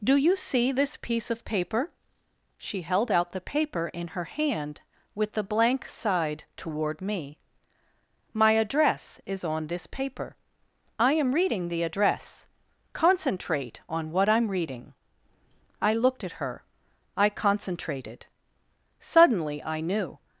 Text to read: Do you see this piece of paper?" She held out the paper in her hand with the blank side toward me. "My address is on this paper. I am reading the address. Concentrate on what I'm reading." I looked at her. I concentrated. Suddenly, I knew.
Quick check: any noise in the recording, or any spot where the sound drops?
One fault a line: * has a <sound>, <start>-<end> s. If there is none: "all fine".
all fine